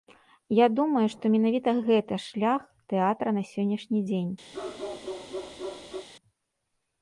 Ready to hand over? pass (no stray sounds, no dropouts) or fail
fail